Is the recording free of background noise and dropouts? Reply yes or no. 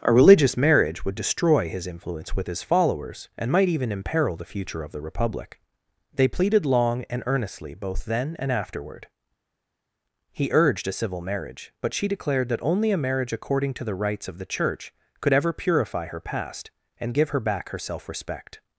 yes